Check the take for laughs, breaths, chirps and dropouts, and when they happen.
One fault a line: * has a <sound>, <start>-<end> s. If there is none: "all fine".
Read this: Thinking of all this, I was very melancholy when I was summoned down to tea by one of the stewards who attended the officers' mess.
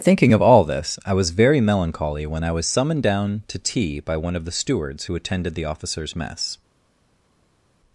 all fine